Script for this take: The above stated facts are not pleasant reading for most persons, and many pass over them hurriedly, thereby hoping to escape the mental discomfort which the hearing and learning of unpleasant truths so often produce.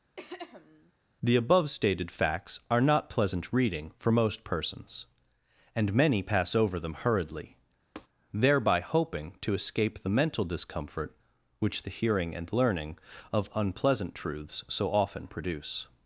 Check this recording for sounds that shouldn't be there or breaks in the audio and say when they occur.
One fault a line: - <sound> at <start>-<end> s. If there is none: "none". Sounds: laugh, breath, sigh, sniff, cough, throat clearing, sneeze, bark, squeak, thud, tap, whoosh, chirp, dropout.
- throat clearing at 0.2-0.9 s
- tap at 8.0-8.1 s